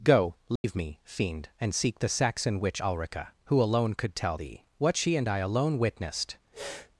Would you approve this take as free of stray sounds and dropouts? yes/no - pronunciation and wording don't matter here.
no